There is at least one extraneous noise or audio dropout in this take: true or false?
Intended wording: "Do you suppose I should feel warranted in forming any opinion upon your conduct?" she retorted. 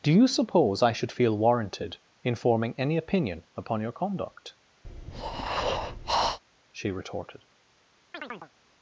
true